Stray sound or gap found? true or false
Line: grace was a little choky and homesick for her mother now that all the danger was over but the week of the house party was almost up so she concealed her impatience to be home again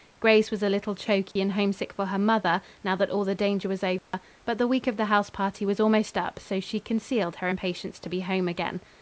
true